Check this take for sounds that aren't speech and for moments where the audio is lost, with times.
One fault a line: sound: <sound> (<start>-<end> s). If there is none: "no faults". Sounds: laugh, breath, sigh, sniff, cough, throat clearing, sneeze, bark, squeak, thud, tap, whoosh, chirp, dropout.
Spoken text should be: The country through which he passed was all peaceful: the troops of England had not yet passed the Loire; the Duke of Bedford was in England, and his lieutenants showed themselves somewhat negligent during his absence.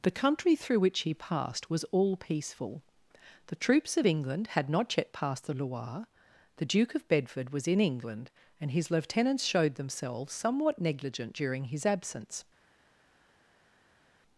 no faults